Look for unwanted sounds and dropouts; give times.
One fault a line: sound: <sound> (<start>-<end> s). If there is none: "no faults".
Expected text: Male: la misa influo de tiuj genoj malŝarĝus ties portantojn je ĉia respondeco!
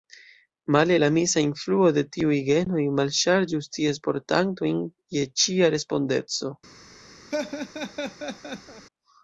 sound: laugh (7.3-8.9 s)